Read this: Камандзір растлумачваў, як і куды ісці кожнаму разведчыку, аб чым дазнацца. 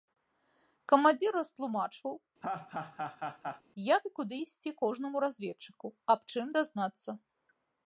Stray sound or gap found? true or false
true